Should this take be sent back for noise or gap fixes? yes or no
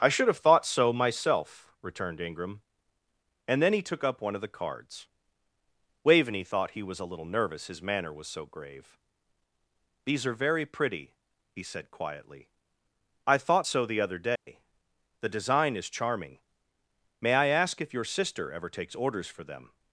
yes